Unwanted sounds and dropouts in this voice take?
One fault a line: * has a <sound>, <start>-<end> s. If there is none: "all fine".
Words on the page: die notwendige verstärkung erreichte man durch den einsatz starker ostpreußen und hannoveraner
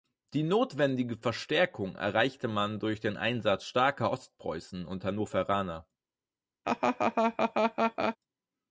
* has a laugh, 6.6-8.2 s